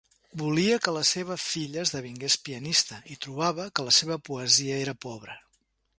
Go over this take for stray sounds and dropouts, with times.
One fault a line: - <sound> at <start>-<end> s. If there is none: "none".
none